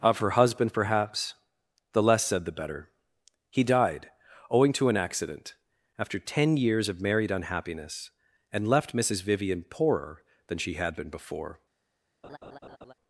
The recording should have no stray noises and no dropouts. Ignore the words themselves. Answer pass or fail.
fail